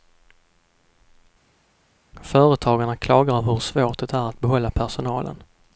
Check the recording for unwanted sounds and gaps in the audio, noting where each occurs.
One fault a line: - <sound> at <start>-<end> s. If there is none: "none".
none